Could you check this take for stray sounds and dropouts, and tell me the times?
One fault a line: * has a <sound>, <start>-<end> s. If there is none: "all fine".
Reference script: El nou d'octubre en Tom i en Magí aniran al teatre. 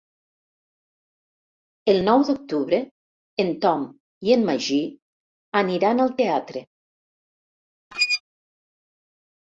* has a squeak, 7.9-8.2 s